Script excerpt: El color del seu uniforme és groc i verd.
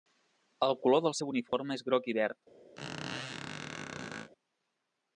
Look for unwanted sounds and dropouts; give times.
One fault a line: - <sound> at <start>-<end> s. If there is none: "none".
- dropout at 1.5-1.5 s
- squeak at 2.8-4.3 s